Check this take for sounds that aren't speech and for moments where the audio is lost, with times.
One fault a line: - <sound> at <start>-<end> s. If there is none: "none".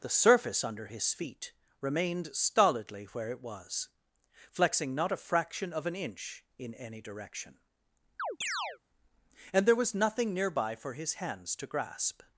- chirp at 8.2-8.8 s